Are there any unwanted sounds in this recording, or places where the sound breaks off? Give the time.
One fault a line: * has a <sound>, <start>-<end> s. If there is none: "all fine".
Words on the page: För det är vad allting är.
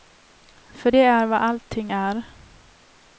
all fine